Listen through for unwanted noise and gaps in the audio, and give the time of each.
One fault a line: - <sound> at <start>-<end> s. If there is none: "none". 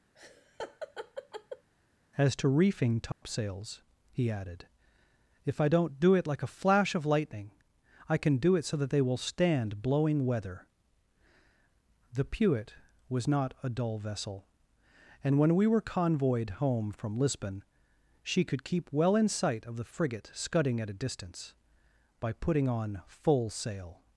- laugh at 0.1-1.7 s
- dropout at 3.1-3.2 s